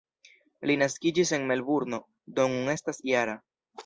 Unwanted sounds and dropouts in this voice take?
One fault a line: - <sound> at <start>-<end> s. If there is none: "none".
none